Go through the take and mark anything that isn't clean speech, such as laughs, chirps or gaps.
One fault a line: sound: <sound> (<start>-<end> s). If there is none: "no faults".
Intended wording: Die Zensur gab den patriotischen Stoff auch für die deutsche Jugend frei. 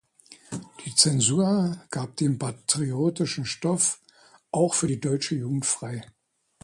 no faults